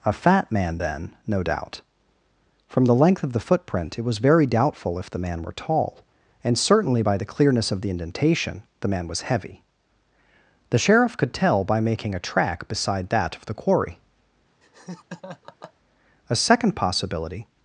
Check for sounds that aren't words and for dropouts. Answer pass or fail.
fail